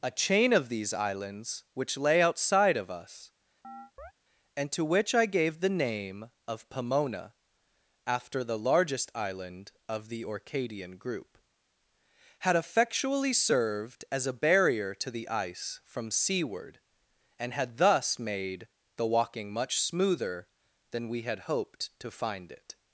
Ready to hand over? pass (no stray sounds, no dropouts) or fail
fail